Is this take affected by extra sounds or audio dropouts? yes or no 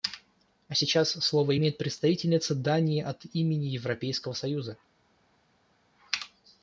no